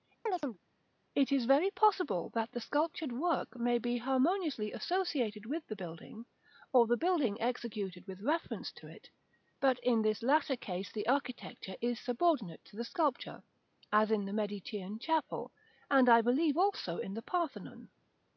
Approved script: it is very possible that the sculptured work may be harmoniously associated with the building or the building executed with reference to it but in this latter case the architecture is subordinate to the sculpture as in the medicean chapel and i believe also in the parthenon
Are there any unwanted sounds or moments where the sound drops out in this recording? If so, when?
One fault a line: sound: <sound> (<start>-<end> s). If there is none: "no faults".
sound: chirp (0.3-0.6 s)